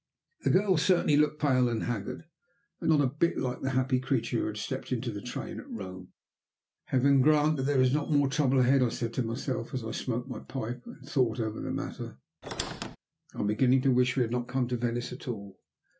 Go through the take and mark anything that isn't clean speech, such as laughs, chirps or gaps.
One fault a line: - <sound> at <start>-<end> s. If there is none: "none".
- squeak at 12.4-13.0 s